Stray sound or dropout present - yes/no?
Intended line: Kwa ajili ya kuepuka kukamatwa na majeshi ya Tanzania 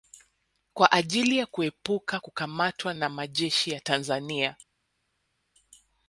no